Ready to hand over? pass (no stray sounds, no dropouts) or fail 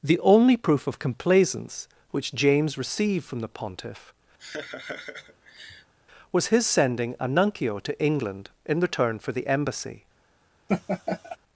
fail